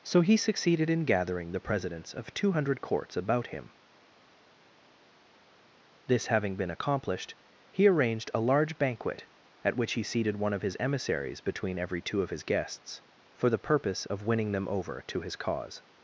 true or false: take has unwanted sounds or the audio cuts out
false